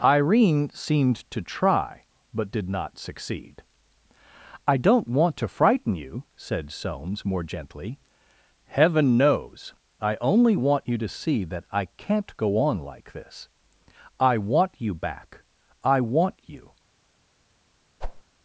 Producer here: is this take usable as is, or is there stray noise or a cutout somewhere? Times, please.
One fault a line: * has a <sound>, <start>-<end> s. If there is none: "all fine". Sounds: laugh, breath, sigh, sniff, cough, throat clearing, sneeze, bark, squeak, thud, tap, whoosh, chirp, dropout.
* has a whoosh, 18.0-18.2 s